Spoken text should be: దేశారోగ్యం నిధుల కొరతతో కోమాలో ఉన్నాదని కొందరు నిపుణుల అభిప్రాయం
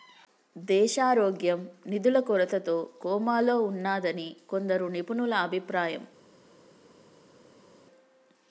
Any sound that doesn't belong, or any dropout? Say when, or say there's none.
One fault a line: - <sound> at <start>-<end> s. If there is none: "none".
none